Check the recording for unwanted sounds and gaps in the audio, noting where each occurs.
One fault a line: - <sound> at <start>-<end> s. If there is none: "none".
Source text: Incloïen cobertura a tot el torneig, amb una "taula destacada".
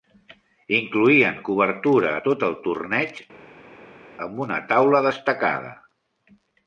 none